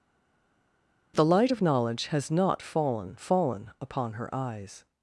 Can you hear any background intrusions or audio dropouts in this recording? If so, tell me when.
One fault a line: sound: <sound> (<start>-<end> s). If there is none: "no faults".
no faults